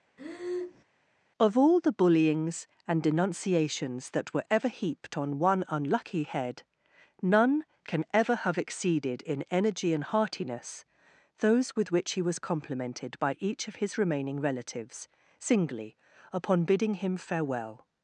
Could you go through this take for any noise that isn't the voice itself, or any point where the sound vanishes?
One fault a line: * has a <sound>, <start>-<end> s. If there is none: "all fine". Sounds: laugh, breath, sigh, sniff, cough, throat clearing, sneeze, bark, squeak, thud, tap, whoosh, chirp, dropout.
* has a breath, 0.2-0.8 s